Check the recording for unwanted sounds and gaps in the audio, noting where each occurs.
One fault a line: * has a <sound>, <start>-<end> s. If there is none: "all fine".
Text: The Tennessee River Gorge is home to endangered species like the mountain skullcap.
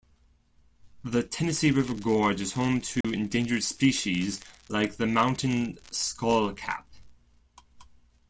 * has a dropout, 3.0-3.0 s